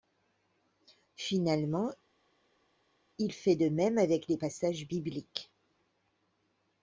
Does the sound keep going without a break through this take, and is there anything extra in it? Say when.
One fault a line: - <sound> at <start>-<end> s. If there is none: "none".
none